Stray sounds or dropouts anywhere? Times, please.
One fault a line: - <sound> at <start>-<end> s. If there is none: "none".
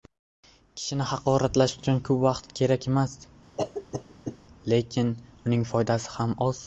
- cough at 3.6-4.4 s